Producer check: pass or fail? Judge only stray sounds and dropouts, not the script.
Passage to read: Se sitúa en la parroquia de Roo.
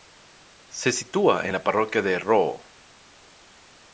pass